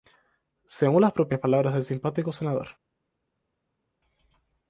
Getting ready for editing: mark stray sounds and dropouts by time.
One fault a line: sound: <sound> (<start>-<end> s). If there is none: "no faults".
no faults